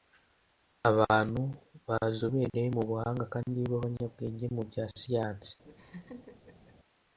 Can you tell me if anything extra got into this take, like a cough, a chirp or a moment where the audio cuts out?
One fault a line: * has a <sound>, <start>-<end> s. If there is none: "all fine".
* has a laugh, 5.6-6.8 s